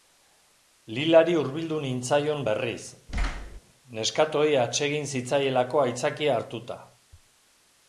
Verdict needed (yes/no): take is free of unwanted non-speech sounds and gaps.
no